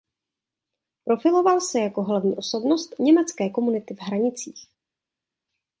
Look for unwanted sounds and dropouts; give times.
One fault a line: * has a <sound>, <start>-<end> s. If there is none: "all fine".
all fine